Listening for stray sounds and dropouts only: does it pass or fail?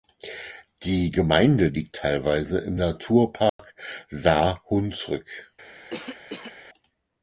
fail